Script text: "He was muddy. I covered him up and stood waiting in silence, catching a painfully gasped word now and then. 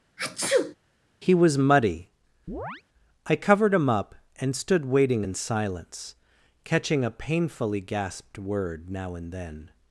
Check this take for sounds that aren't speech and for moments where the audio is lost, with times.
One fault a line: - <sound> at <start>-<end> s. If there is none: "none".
- sneeze at 0.2-0.7 s
- chirp at 2.5-2.8 s